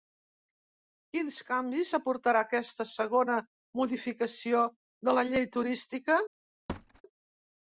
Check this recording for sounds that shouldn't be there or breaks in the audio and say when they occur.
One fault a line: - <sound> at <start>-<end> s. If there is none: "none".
- thud at 6.7-7.0 s